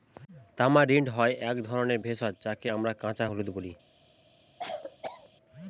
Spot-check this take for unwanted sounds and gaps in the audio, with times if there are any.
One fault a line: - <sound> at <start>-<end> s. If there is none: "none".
- cough at 4.6-5.3 s